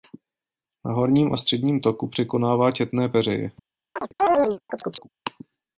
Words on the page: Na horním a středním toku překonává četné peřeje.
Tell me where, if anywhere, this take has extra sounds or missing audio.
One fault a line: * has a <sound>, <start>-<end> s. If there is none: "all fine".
* has a chirp, 4.0-5.1 s